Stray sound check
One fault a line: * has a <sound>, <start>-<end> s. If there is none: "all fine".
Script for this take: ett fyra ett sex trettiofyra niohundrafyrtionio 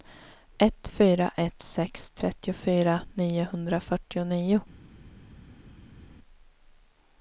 all fine